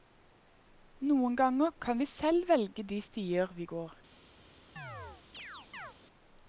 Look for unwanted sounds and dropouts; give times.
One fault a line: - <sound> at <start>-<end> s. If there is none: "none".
- chirp at 4.8-5.9 s